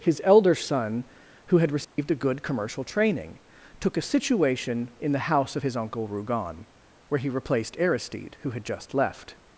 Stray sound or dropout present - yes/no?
yes